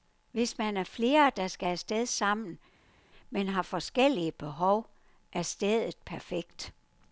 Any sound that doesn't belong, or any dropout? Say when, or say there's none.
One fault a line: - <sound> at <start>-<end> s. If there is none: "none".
none